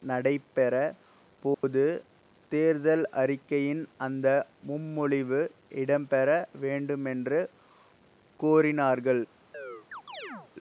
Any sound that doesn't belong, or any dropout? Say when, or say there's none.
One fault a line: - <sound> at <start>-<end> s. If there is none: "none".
- dropout at 1.5-1.6 s
- chirp at 9.5-10.5 s